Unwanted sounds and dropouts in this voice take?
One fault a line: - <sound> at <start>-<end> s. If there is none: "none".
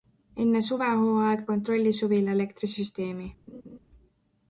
- laugh at 3.5-3.8 s